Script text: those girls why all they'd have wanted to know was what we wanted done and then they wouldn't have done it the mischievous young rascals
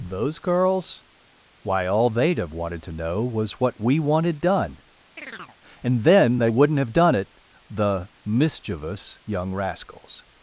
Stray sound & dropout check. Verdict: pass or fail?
fail